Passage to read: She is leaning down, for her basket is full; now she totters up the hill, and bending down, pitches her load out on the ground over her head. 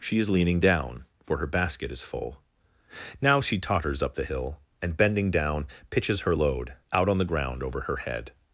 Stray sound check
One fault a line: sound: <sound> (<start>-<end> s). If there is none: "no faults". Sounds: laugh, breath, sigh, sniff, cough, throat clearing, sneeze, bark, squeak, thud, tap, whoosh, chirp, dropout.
no faults